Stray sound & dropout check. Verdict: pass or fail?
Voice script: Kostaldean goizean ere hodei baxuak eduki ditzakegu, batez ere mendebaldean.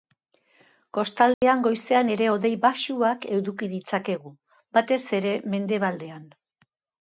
fail